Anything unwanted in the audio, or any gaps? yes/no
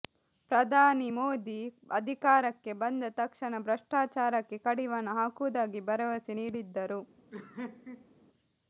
yes